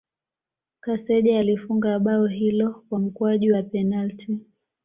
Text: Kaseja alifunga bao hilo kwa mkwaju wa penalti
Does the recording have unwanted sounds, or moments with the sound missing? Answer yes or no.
no